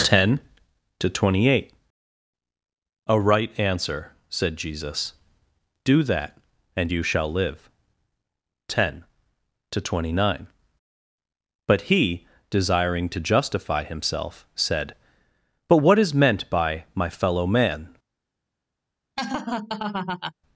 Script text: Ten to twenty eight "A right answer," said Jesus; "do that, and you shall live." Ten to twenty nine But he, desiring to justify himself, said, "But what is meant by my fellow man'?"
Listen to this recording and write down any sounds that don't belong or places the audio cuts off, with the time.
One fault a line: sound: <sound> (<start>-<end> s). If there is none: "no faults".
sound: laugh (19.2-20.3 s)